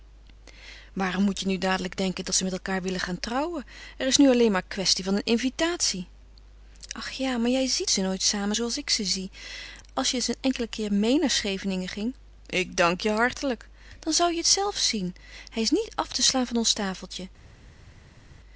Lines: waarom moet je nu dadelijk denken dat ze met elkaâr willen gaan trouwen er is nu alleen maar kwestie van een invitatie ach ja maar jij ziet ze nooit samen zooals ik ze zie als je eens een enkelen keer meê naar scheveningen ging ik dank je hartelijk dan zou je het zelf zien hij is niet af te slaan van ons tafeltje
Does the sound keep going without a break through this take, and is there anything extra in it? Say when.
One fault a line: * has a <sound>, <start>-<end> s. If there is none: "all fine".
all fine